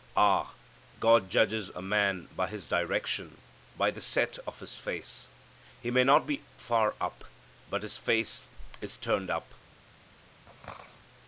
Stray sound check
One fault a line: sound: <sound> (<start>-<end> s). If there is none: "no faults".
sound: throat clearing (10.5-11.0 s)